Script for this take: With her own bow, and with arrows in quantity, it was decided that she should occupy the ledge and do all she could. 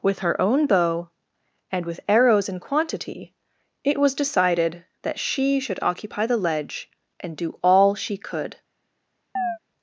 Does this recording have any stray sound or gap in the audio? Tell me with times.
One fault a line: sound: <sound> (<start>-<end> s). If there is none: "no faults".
sound: chirp (9.4-9.6 s)